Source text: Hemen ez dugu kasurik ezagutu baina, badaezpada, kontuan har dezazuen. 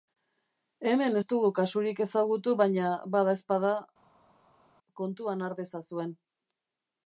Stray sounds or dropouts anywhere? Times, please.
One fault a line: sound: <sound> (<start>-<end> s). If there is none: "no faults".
no faults